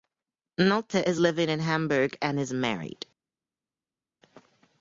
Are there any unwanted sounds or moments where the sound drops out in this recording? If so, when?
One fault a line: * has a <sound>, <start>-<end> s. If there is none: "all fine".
all fine